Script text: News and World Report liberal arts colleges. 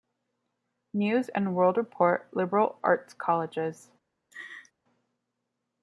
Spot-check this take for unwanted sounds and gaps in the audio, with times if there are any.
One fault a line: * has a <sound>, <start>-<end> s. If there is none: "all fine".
* has a laugh, 4.3-4.7 s